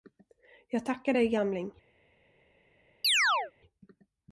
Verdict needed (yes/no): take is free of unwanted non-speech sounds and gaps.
no